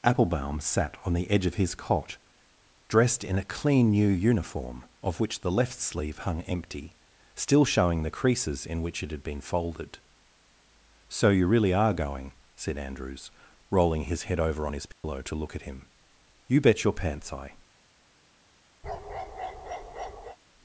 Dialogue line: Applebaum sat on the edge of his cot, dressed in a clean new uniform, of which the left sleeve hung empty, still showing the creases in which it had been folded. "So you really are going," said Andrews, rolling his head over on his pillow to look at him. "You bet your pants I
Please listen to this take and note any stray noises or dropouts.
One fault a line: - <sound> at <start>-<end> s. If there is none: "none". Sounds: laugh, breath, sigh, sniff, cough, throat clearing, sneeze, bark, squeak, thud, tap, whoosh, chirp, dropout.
- dropout at 14.9-15.0 s
- bark at 18.8-20.4 s